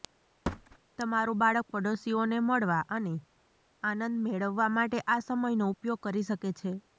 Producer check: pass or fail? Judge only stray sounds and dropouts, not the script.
fail